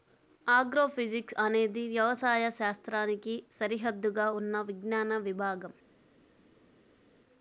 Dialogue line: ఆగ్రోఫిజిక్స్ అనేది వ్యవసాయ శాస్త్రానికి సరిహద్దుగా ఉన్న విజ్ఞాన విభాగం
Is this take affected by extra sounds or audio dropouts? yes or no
no